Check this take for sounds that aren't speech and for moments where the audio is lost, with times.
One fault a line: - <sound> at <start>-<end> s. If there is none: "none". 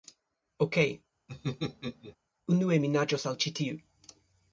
- laugh at 1.3-2.2 s